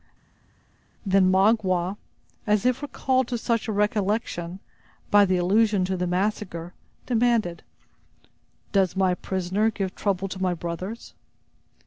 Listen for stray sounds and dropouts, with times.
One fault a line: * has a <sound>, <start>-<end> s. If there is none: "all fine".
all fine